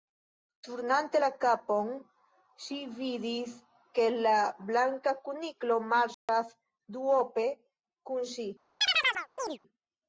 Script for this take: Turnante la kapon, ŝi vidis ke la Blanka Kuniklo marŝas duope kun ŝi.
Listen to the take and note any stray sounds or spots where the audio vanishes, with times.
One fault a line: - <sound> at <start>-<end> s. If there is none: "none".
- dropout at 6.1-6.3 s
- chirp at 8.8-9.6 s